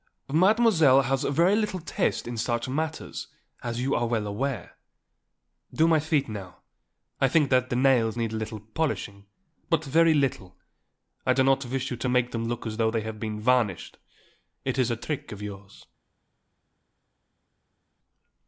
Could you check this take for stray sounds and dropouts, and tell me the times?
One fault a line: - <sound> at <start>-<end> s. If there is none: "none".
none